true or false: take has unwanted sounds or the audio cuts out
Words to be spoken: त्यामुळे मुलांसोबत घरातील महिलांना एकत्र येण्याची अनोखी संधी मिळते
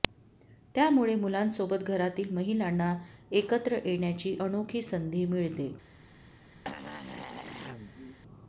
true